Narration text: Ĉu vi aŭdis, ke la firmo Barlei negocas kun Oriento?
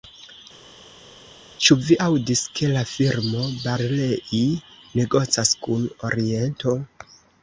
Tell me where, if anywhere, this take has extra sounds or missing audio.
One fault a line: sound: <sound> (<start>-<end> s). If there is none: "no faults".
no faults